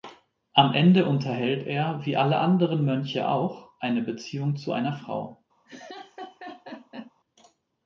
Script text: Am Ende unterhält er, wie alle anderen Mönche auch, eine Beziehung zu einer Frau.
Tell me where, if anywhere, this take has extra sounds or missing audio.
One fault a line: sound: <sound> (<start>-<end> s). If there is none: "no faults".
sound: laugh (5.7-7.1 s)